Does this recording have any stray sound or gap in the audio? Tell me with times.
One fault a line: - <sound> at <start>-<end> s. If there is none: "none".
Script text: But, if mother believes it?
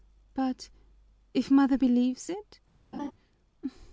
- laugh at 2.9-3.1 s